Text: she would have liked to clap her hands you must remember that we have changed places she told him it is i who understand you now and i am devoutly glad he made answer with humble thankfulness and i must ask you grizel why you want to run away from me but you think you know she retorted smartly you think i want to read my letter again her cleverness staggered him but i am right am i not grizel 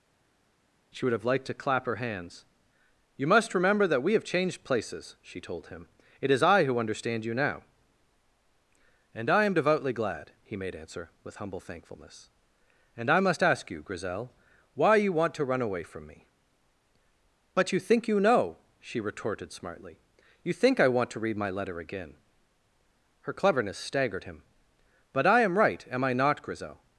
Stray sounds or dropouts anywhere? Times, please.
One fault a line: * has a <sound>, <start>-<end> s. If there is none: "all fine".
all fine